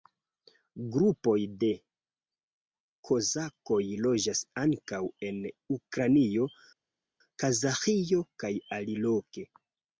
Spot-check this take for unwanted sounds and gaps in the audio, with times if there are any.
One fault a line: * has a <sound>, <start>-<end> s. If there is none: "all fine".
all fine